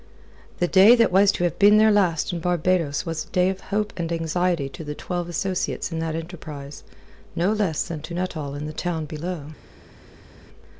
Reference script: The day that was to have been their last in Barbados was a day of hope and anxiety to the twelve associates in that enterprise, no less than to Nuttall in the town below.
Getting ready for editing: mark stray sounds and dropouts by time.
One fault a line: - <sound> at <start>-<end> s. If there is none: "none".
none